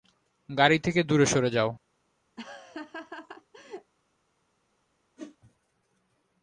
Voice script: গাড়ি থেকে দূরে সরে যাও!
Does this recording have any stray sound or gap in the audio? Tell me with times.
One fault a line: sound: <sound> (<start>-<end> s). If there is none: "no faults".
sound: laugh (2.4-3.9 s)
sound: whoosh (5.2-5.4 s)